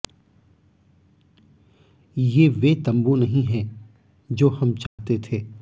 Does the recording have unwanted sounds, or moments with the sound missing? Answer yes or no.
yes